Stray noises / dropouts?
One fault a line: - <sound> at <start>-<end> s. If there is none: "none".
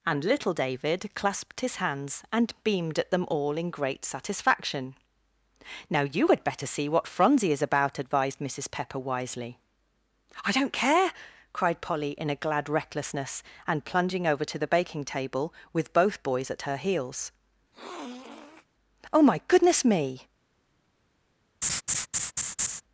- sniff at 17.7-18.7 s
- laugh at 21.6-22.8 s